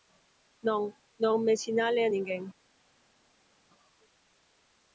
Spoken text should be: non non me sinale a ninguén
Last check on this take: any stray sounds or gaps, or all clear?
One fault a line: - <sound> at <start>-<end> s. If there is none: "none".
none